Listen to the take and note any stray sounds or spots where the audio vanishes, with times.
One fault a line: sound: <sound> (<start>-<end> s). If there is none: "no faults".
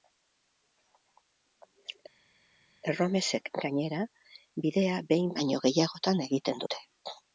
no faults